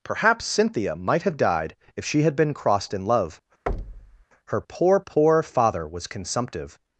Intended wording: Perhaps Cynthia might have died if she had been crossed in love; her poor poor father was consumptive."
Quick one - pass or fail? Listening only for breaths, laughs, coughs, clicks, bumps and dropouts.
fail